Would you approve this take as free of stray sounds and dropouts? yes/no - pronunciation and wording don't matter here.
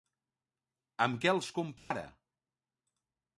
no